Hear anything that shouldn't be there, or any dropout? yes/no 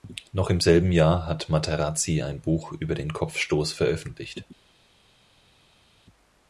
no